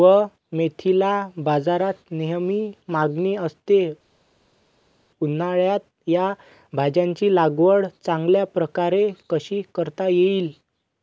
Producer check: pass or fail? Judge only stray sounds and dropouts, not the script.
pass